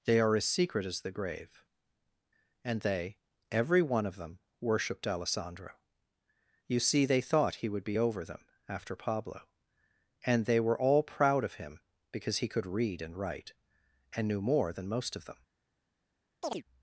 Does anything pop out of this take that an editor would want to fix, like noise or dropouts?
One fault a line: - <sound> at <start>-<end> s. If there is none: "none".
- chirp at 16.4-16.6 s